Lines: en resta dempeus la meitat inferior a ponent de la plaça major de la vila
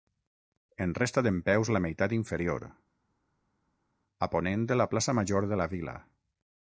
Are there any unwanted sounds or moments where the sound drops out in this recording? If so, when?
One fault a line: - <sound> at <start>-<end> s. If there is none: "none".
none